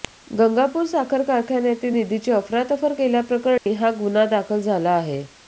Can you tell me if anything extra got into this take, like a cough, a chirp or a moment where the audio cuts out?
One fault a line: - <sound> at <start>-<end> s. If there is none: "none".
- dropout at 3.6-3.7 s